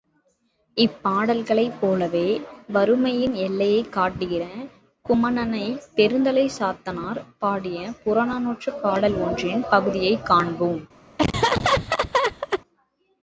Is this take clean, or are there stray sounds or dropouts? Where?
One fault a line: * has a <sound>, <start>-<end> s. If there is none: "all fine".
* has a laugh, 11.2-12.6 s